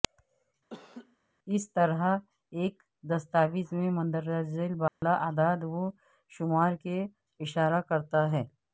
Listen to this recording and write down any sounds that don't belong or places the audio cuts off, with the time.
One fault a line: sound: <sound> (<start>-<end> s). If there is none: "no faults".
sound: laugh (0.7-1.2 s)
sound: dropout (4.9-5.0 s)